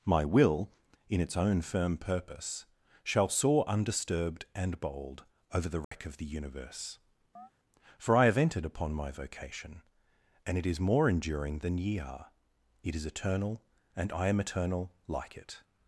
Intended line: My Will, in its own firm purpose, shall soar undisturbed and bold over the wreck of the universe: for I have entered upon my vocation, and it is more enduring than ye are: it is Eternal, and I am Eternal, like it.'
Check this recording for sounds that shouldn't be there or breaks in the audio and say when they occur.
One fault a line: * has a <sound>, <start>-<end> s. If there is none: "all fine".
* has a dropout, 5.8-5.9 s
* has a chirp, 7.4-7.5 s